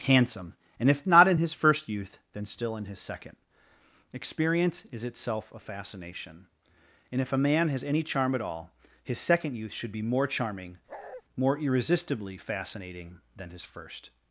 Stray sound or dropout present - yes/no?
yes